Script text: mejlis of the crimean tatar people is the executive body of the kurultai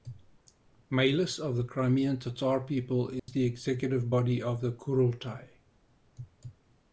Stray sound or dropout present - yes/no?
yes